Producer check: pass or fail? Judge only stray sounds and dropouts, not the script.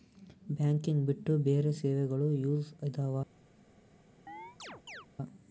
fail